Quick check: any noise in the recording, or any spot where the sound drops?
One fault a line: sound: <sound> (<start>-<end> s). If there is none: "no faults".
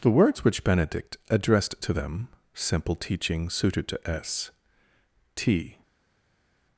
no faults